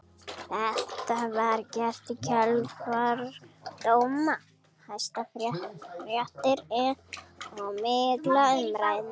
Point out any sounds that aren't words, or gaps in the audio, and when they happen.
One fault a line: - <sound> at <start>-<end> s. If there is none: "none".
none